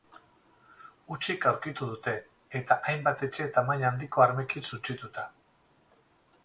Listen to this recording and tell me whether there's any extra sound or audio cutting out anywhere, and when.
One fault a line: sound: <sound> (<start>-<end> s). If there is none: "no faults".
no faults